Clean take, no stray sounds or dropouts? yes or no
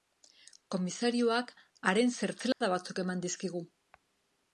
no